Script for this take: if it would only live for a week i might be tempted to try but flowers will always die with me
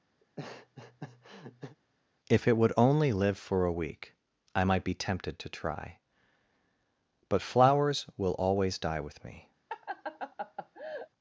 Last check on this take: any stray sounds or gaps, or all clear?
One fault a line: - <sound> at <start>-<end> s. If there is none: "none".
- laugh at 0.2-1.8 s
- laugh at 9.7-11.1 s